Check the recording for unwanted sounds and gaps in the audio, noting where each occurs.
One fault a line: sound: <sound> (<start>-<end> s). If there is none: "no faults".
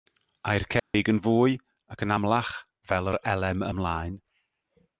sound: dropout (0.8-0.9 s)